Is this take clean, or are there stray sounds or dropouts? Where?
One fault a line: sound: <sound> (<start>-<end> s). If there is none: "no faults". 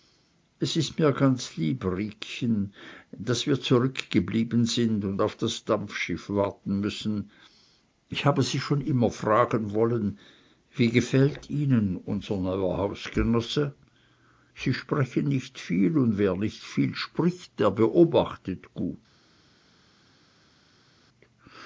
no faults